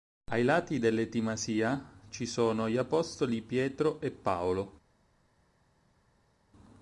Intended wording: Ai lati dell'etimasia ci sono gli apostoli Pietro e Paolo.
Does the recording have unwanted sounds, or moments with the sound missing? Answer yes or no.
no